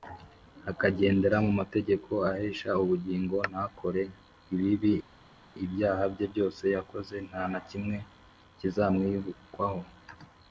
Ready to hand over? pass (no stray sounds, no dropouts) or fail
pass